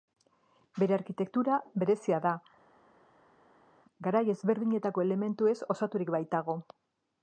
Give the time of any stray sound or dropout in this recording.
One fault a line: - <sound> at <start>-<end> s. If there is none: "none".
none